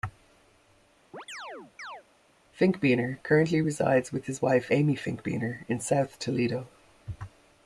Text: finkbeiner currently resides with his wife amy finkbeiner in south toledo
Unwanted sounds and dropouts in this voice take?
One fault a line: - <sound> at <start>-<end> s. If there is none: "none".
- chirp at 1.1-2.0 s